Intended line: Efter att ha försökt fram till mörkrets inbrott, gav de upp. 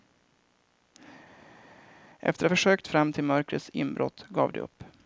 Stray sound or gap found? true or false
false